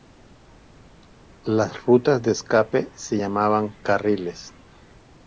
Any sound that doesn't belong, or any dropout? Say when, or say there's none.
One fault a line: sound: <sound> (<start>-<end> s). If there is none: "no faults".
no faults